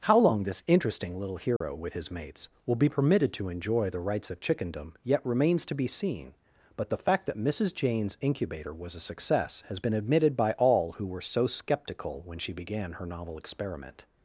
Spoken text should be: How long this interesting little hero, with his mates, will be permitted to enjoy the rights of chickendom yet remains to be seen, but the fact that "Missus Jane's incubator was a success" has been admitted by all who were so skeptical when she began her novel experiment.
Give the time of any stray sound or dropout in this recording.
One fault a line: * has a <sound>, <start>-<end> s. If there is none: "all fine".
* has a dropout, 1.6-1.6 s